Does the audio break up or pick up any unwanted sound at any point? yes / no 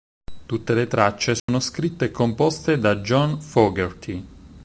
yes